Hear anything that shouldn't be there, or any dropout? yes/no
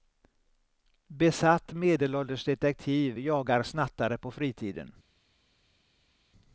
no